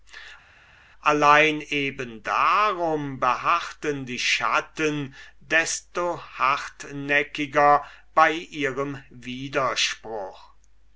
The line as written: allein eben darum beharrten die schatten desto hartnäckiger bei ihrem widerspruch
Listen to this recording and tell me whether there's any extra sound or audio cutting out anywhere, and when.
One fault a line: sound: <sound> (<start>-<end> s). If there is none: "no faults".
no faults